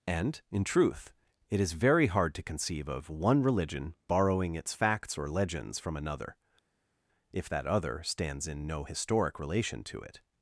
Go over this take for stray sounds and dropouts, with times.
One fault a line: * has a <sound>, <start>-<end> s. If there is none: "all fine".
all fine